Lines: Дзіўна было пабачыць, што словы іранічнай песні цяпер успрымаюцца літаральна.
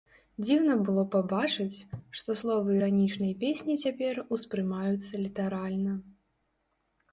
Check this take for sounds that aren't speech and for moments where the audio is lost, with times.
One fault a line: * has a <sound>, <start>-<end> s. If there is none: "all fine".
all fine